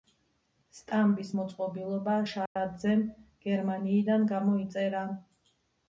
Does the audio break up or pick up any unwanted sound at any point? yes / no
yes